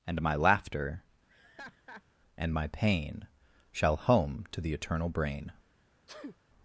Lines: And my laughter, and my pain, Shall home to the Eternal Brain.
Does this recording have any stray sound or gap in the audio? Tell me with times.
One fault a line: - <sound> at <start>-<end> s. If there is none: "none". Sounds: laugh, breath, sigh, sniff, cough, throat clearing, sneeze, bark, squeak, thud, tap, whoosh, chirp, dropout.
- laugh at 1.3-2.0 s
- sneeze at 6.1-6.4 s